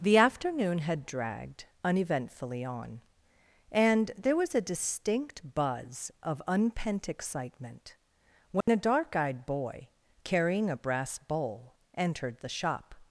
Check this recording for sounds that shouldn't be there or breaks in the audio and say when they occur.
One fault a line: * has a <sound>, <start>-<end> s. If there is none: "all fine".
* has a dropout, 8.6-8.7 s